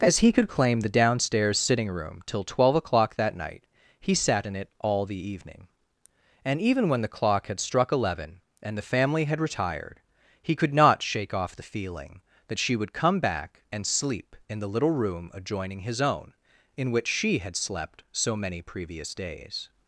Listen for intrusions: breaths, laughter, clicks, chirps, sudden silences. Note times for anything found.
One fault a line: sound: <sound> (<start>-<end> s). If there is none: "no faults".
no faults